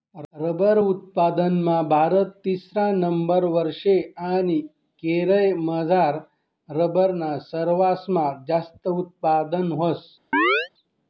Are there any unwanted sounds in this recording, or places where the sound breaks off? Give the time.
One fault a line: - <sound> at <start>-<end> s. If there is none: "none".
- chirp at 10.3-10.7 s